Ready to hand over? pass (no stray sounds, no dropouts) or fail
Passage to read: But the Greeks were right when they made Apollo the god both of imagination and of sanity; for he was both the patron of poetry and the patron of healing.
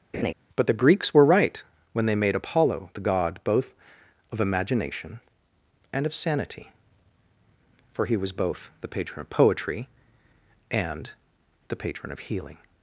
fail